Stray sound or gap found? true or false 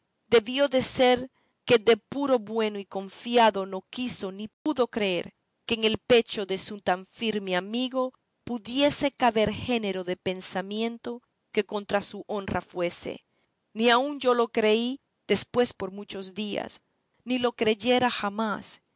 true